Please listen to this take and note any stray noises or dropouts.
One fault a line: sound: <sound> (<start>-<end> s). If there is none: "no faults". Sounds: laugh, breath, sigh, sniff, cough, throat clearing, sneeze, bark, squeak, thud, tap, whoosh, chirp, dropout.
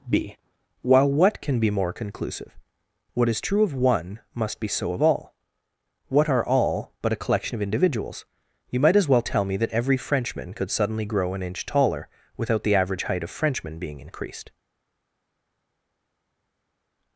no faults